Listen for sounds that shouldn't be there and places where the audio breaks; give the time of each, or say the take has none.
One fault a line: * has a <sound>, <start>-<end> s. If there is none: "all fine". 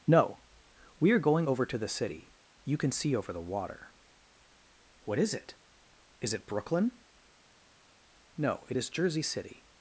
all fine